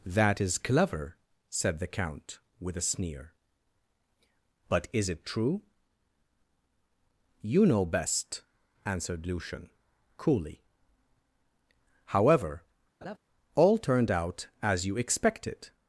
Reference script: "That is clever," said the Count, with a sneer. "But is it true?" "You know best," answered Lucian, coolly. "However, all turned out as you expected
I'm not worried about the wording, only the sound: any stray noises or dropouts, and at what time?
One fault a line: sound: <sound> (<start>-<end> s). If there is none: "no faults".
sound: laugh (13.0-13.2 s)